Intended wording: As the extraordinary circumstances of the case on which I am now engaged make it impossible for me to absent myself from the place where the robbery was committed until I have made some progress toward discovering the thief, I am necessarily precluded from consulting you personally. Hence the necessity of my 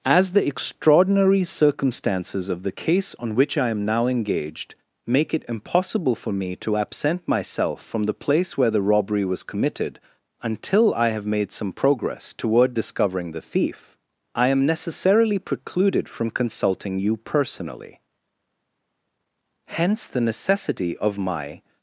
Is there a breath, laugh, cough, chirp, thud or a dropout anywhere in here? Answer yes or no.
no